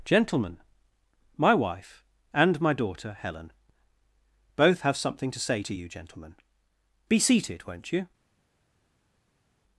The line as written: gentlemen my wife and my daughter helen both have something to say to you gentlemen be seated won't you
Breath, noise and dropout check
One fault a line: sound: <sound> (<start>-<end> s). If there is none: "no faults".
no faults